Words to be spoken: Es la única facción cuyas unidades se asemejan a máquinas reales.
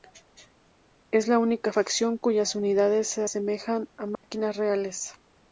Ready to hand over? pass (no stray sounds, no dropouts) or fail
fail